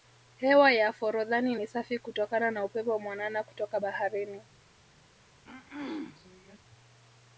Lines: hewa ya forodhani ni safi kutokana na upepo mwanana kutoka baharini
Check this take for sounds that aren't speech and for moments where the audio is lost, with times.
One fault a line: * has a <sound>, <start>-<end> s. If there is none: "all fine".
* has a throat clearing, 5.4-6.6 s